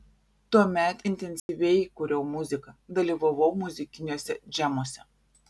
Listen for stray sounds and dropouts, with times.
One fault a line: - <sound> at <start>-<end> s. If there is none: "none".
- dropout at 1.4-1.5 s